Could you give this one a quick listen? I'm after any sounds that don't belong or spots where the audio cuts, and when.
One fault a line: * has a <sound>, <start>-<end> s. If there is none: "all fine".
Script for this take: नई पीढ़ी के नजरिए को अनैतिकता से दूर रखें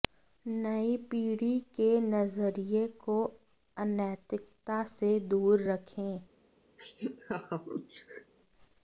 * has a laugh, 6.8-8.3 s